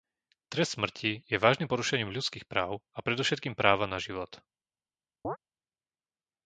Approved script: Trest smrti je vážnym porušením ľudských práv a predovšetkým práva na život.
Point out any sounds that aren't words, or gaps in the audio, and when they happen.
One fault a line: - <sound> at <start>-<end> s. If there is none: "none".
- chirp at 5.2-5.4 s